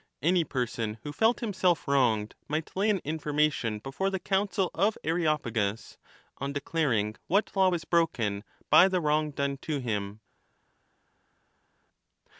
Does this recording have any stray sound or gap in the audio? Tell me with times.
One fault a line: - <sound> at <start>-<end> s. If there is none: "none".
none